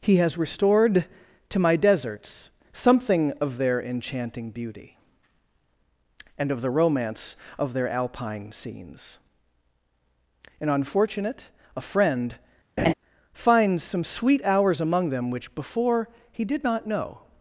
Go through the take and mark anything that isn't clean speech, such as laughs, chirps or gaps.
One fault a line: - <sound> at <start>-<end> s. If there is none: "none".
- laugh at 12.8-12.9 s